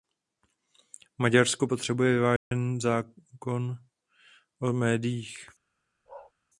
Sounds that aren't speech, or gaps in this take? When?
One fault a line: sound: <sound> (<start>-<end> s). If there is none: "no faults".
sound: dropout (2.4-2.5 s)
sound: bark (6.1-6.3 s)